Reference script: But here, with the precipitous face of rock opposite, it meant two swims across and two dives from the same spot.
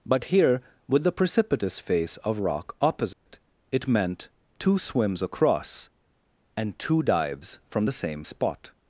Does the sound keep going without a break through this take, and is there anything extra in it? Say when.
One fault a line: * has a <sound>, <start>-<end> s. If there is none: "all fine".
* has a dropout, 3.1-3.3 s